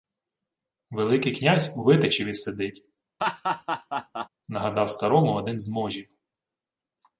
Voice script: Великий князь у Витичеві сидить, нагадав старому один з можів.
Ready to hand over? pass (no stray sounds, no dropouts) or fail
fail